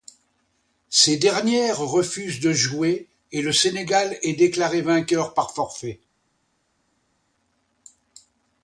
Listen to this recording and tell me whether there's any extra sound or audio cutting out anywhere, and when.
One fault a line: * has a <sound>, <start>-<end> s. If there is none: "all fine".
all fine